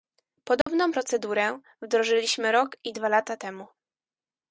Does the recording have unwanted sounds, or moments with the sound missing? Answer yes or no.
yes